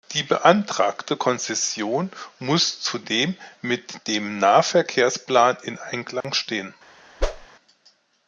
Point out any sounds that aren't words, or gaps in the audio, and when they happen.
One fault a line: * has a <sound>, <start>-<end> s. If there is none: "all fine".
* has a dropout, 6.2-6.2 s
* has a whoosh, 7.2-7.5 s